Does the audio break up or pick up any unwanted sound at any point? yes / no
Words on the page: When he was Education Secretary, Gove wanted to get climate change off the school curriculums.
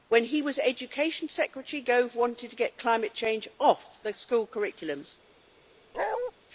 yes